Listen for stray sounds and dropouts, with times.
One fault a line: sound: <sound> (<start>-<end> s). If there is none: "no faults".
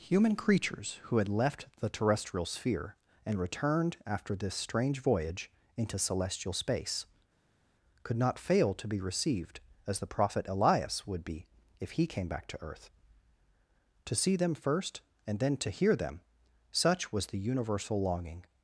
no faults